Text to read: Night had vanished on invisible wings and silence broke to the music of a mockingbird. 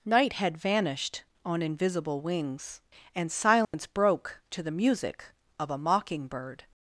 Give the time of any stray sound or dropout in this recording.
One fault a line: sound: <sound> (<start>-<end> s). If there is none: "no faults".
sound: dropout (3.6-3.7 s)